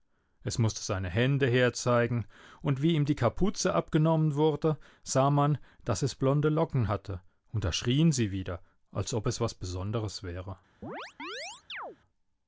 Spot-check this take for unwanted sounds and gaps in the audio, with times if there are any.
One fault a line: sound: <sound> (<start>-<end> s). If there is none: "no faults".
sound: chirp (10.8-12.0 s)